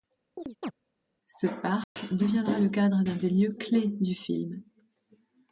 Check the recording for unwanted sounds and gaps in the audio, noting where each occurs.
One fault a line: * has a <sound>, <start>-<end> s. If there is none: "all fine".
* has a chirp, 0.4-0.7 s
* has a dropout, 1.8-2.0 s